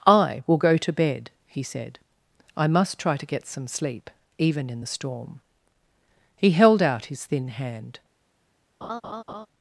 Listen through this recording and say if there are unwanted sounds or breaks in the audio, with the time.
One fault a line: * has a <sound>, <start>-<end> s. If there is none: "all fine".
* has a laugh, 8.8-9.5 s